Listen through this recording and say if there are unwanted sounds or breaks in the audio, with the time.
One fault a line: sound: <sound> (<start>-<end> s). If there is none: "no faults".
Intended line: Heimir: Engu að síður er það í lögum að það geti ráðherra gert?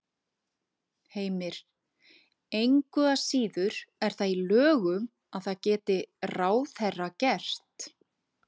no faults